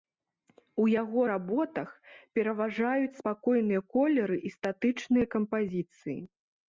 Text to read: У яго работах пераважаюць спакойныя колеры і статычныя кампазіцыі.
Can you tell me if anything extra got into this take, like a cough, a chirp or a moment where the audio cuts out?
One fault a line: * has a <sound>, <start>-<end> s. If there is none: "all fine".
all fine